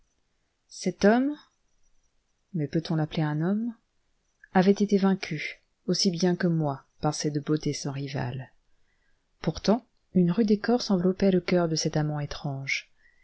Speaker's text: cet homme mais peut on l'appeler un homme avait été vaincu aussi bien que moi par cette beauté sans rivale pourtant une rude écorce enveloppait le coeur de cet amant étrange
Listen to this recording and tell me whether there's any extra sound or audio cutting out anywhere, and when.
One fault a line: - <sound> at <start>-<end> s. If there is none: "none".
none